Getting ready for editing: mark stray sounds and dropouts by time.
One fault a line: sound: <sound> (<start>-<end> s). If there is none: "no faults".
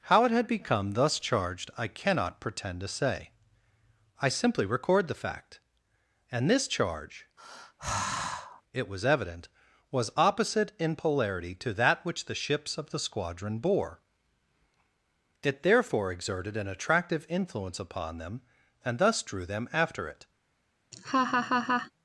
sound: sigh (7.4-8.6 s)
sound: laugh (20.9-21.9 s)